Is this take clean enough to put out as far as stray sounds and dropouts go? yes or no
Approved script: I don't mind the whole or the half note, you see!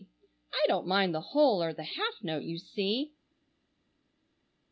yes